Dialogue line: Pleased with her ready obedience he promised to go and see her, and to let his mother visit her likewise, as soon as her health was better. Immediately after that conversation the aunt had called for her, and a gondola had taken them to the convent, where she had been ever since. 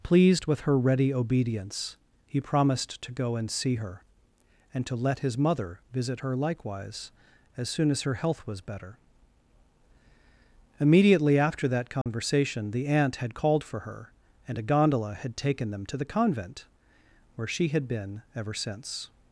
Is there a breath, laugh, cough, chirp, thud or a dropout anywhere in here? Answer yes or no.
yes